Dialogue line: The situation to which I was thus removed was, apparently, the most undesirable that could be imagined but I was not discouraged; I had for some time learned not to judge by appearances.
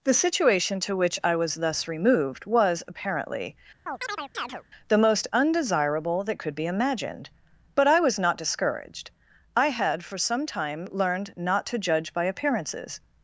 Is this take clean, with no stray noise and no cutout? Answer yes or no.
no